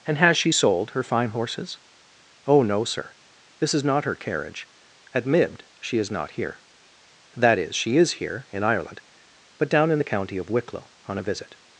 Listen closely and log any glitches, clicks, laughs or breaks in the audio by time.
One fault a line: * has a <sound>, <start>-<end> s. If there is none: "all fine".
all fine